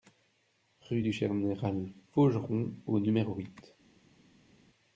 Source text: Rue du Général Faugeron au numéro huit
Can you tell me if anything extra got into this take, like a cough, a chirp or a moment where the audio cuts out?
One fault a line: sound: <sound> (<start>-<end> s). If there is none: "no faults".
no faults